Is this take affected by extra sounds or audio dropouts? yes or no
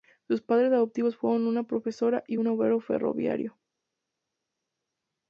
no